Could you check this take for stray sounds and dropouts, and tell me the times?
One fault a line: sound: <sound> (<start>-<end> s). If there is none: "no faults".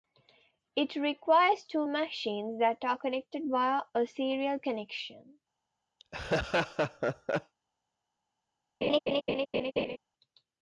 sound: laugh (6.0-7.5 s)
sound: laugh (8.8-10.0 s)